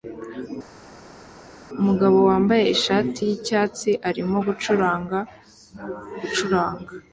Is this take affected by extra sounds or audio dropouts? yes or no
no